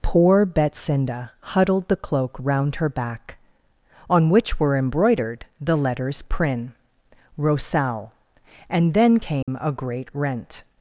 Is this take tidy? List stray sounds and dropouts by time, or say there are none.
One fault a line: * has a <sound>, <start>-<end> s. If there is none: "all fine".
* has a dropout, 9.4-9.5 s